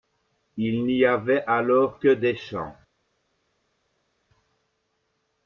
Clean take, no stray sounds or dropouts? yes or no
yes